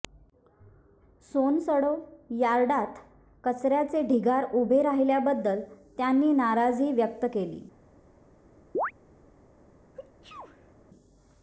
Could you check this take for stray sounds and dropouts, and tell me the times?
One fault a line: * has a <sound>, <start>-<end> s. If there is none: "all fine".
* has a chirp, 8.7-8.9 s
* has a sneeze, 9.9-10.7 s